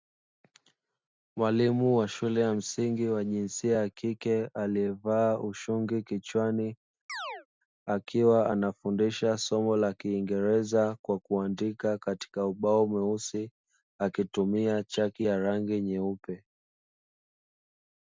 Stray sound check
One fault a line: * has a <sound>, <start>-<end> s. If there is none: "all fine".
* has a chirp, 7.1-7.5 s